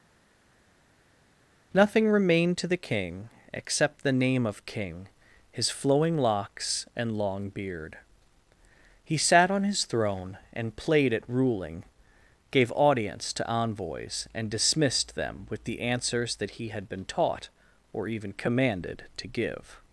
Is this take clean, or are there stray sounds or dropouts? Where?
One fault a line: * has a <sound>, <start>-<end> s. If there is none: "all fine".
all fine